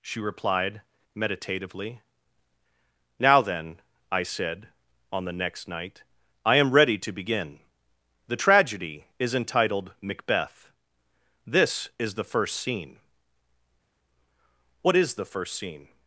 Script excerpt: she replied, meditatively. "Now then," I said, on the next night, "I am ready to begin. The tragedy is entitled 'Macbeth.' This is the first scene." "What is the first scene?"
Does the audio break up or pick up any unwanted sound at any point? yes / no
no